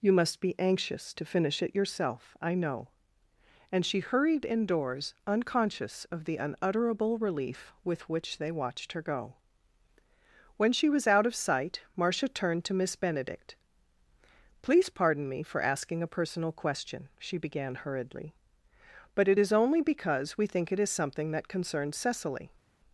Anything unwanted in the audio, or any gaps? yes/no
no